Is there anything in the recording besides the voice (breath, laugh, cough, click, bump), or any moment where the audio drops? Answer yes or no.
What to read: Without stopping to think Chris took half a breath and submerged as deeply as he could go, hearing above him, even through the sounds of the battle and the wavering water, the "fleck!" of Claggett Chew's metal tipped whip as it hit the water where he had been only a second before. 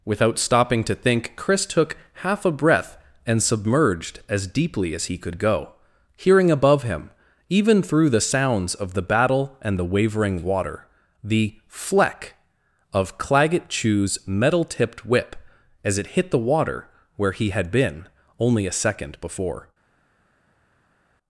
no